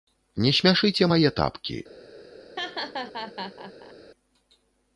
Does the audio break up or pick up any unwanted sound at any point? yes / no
yes